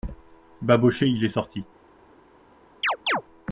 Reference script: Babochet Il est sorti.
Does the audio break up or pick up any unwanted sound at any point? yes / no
yes